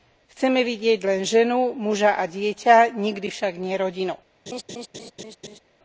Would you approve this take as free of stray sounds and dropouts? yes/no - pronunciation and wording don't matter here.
no